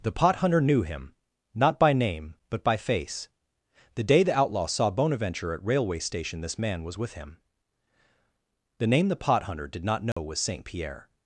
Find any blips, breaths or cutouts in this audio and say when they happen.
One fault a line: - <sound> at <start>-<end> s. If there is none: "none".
- dropout at 10.1-10.2 s